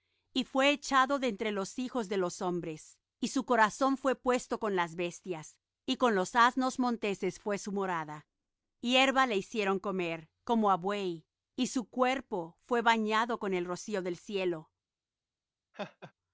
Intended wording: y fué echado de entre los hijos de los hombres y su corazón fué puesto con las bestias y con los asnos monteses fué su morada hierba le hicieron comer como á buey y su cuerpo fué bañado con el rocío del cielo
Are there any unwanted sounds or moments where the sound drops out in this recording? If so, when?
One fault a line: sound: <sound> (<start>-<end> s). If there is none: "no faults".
sound: laugh (15.7-16.1 s)